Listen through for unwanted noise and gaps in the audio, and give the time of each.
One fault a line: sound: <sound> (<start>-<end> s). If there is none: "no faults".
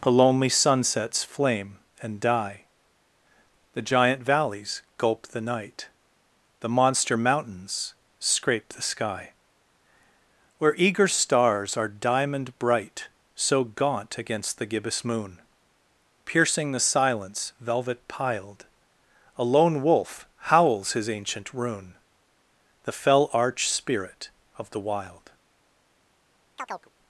sound: chirp (26.6-26.9 s)